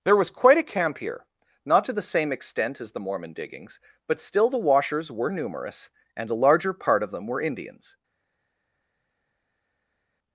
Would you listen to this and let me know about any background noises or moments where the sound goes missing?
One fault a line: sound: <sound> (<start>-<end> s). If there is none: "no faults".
no faults